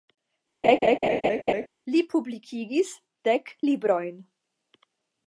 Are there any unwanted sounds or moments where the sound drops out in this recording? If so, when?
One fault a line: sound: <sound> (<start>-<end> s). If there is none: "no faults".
sound: laugh (0.6-1.7 s)